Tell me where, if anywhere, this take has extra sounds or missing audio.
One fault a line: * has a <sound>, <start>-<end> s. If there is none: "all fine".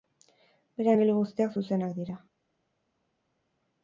all fine